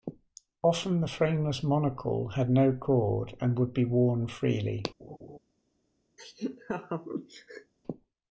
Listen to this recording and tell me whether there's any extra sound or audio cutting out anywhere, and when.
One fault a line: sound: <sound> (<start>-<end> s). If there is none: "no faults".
sound: laugh (5.0-5.4 s)
sound: laugh (6.2-7.7 s)